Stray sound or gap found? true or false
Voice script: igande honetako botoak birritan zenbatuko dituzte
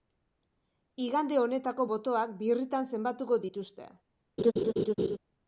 true